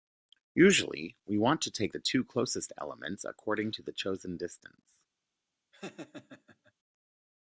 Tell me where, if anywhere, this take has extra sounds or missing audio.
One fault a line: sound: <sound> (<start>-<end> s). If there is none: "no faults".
sound: laugh (5.7-6.7 s)